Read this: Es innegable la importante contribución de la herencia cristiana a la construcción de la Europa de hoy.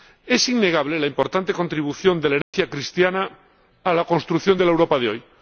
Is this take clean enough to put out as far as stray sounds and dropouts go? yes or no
no